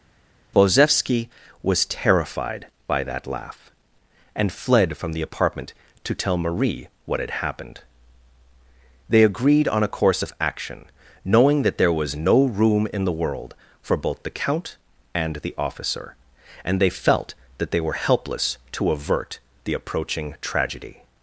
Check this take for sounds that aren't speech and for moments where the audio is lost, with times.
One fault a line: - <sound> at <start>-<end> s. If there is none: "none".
none